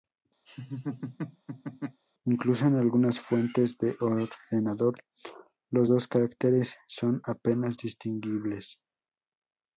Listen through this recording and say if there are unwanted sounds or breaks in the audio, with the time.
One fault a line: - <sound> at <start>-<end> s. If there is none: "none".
- laugh at 0.5-2.0 s